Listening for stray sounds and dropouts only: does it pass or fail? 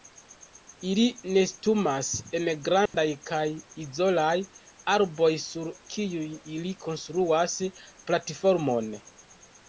fail